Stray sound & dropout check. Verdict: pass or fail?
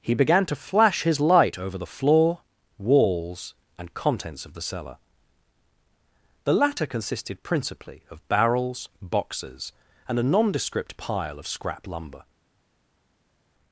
pass